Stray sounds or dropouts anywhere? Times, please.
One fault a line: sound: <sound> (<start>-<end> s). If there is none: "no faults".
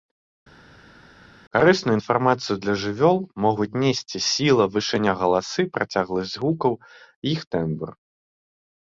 no faults